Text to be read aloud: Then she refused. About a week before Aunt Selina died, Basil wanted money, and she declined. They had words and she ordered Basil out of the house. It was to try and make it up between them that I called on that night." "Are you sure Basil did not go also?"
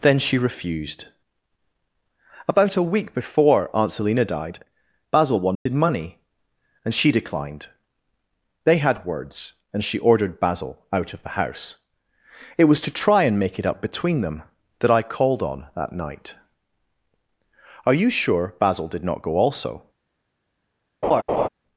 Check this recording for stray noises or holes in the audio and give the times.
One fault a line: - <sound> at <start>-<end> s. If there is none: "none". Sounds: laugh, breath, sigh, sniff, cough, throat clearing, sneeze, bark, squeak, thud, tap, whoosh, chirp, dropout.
- dropout at 5.5-5.7 s
- laugh at 21.0-21.5 s